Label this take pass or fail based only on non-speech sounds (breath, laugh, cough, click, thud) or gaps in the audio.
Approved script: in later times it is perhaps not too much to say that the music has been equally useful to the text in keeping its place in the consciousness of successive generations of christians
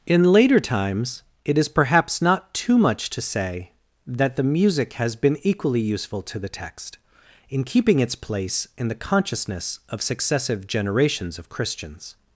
pass